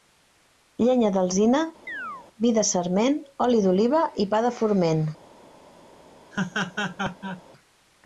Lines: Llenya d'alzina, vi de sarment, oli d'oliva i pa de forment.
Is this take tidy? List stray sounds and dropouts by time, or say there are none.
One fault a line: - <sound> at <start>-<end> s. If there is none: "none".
- chirp at 1.9-2.3 s
- laugh at 6.3-7.4 s